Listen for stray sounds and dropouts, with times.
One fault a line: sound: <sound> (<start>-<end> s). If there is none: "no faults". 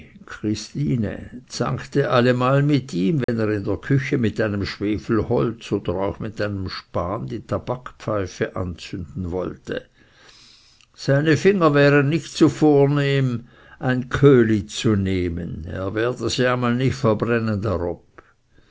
sound: dropout (3.2-3.3 s)